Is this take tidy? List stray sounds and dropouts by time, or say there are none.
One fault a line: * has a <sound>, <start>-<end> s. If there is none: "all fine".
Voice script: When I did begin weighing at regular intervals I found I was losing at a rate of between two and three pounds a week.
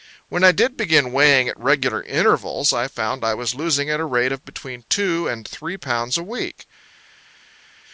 all fine